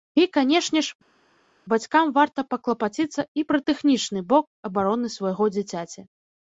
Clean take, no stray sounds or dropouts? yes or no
yes